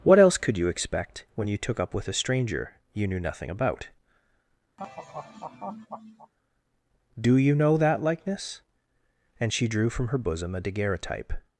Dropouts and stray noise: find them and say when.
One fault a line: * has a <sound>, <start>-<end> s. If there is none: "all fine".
* has a laugh, 4.8-6.3 s